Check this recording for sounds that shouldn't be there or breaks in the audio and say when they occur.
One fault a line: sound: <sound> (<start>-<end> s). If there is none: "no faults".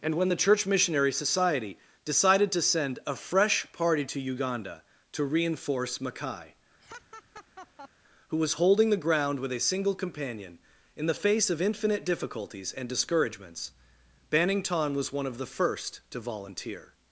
sound: laugh (6.8-7.9 s)